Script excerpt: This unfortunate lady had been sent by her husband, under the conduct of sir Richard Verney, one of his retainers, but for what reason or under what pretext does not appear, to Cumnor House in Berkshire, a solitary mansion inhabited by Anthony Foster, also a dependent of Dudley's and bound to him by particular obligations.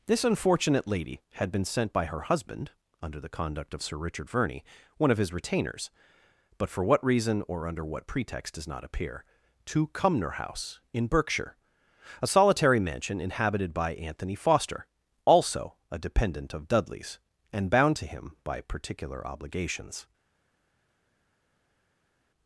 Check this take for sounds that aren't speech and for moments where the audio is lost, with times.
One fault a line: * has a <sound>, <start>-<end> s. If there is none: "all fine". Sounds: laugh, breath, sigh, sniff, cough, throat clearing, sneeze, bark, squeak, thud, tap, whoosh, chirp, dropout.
all fine